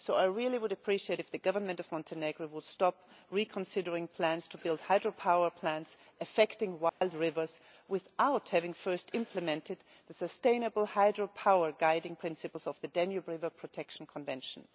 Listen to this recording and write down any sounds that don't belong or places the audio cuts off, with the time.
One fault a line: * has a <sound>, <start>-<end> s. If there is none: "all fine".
* has a dropout, 6.9-7.0 s